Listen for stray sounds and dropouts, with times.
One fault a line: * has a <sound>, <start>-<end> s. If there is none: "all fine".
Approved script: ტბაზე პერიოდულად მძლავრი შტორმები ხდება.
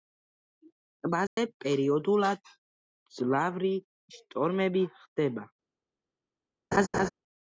* has a dropout, 1.3-1.4 s
* has a laugh, 6.7-7.1 s